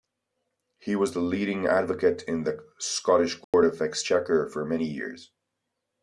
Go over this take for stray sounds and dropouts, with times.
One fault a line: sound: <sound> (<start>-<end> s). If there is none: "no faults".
sound: dropout (3.4-3.5 s)